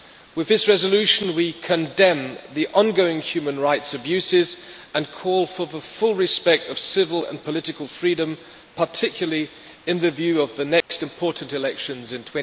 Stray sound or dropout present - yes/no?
yes